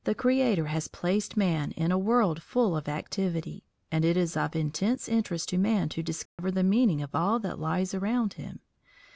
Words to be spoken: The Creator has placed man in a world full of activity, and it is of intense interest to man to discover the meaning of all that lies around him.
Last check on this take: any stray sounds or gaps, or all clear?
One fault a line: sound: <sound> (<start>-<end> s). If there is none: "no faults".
sound: dropout (6.3-6.4 s)